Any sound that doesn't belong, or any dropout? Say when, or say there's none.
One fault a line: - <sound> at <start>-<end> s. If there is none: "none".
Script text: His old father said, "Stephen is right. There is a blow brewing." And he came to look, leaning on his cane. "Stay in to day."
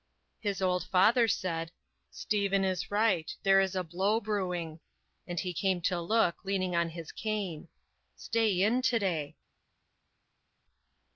none